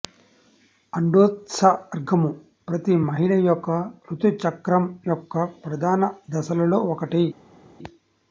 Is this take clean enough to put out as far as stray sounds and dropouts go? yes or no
yes